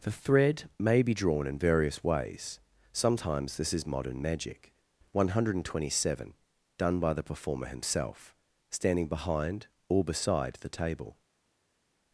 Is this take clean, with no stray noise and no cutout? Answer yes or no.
yes